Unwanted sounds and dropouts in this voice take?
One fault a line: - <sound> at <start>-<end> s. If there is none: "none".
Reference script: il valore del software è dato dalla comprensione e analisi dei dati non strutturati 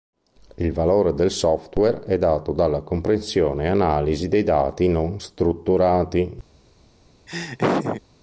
- laugh at 7.3-8.0 s